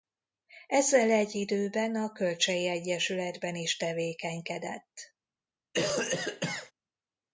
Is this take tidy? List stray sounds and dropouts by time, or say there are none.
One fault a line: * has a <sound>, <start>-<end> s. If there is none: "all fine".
* has a cough, 5.7-6.7 s